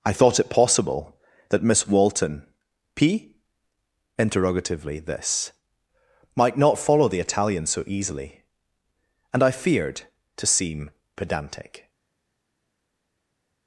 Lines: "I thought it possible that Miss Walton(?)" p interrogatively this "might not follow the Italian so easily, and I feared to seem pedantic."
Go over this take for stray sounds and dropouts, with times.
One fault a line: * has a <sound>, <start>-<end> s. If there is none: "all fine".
all fine